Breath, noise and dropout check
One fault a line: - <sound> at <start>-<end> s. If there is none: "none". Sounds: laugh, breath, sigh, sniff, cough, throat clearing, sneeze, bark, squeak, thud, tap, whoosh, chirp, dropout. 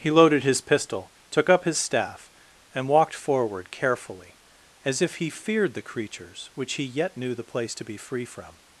none